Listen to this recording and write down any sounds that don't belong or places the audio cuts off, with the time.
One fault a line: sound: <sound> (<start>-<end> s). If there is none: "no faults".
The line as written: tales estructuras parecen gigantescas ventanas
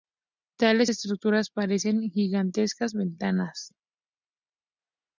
no faults